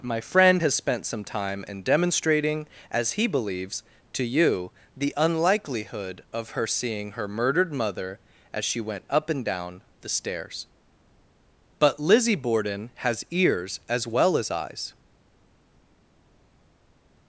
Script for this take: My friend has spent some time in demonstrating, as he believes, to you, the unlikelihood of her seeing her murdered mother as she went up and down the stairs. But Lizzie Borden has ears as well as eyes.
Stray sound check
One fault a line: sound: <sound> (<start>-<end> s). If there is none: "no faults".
no faults